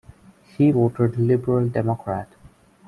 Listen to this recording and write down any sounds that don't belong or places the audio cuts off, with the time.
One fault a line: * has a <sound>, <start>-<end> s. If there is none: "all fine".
all fine